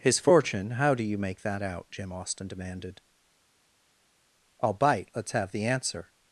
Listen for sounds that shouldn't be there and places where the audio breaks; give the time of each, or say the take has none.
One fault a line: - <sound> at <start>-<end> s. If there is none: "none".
none